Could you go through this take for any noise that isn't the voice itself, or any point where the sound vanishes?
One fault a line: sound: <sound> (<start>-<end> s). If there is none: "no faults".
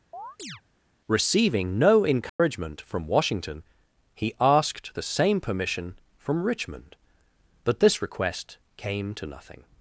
sound: chirp (0.1-0.6 s)
sound: dropout (2.3-2.4 s)